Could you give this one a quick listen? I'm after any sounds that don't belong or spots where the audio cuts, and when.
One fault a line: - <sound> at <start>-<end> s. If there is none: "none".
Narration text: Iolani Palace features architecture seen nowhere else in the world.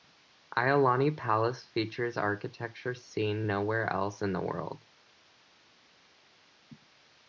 none